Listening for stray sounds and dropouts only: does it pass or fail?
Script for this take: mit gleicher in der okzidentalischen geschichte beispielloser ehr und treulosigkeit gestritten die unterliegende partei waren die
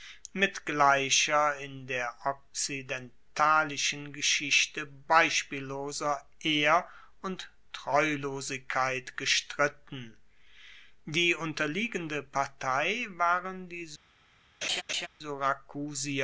fail